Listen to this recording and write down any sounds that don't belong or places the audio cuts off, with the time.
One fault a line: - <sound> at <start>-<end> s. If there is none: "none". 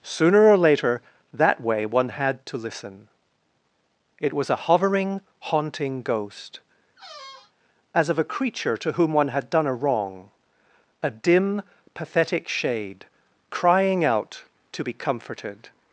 - squeak at 7.0-7.5 s